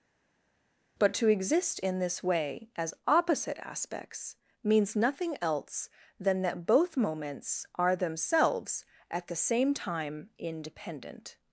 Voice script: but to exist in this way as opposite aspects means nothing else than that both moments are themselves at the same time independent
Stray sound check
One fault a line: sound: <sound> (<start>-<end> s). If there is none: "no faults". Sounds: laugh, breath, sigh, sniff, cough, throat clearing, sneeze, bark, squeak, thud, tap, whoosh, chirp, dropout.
no faults